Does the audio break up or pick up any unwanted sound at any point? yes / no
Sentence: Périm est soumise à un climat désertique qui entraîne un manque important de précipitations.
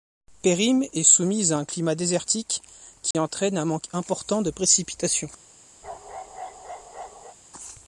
yes